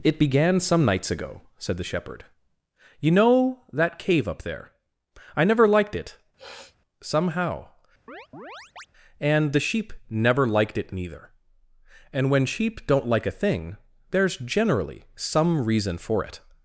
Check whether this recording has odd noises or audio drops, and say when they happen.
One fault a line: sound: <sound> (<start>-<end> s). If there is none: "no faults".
sound: sniff (6.4-6.8 s)
sound: chirp (8.1-8.9 s)